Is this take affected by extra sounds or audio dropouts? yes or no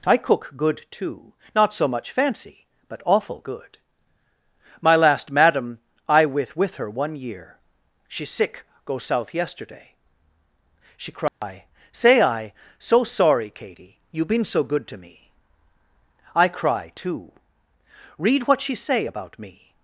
yes